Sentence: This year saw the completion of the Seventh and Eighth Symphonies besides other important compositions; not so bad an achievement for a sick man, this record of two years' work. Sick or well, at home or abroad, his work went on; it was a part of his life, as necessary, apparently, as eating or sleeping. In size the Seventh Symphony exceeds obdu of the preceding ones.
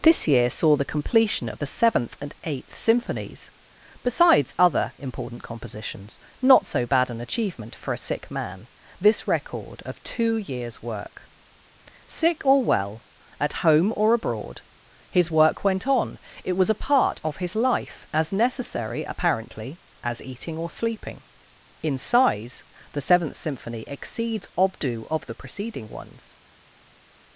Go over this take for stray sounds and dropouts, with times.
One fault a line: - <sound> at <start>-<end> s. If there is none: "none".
none